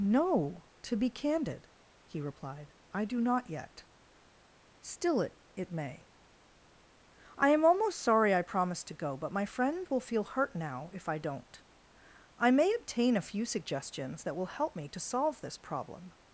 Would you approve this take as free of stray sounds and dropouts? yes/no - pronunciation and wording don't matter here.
yes